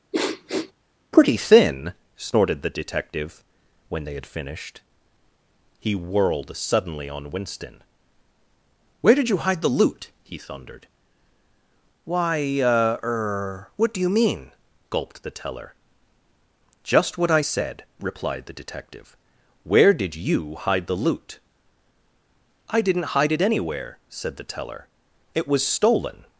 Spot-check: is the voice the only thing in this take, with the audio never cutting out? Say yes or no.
no